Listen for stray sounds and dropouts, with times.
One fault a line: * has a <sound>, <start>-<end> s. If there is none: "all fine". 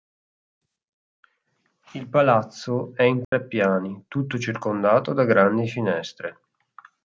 * has a dropout, 3.2-3.3 s